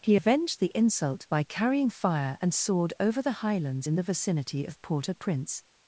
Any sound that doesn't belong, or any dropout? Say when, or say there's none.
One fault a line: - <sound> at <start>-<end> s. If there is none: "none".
none